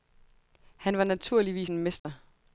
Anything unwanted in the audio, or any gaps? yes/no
yes